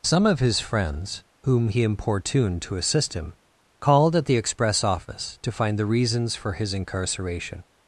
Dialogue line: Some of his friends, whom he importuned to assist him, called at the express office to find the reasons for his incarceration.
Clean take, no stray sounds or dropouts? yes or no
yes